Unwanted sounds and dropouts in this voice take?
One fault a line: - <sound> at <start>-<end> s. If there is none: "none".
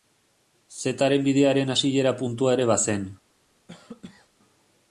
- cough at 3.7-4.3 s